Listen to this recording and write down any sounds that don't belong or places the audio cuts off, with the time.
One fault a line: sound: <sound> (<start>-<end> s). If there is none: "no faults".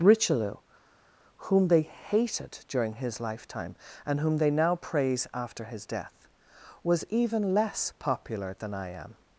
no faults